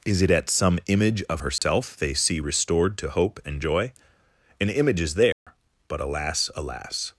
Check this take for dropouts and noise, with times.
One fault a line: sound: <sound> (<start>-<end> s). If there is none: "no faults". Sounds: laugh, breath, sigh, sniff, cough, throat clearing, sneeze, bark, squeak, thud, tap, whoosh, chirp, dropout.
sound: dropout (1.6-1.6 s)
sound: dropout (5.3-5.5 s)